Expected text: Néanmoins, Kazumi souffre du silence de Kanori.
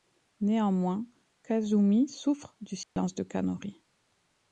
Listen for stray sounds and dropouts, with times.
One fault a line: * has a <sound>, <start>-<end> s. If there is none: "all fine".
* has a dropout, 2.8-3.0 s